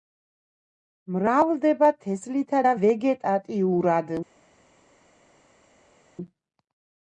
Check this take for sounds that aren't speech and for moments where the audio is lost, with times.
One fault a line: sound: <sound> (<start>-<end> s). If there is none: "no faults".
no faults